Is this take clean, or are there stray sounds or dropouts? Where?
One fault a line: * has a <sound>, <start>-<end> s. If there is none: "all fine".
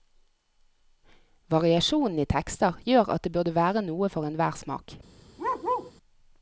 * has a bark, 5.4-5.9 s